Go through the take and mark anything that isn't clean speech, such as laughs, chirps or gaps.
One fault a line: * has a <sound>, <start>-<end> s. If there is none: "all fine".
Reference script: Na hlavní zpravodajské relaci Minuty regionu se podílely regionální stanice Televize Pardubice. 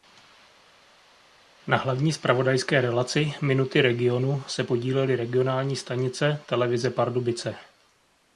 all fine